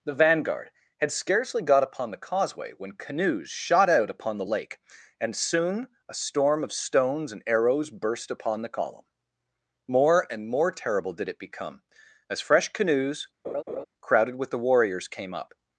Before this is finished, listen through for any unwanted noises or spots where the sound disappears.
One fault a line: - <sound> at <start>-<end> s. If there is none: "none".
- laugh at 13.4-13.9 s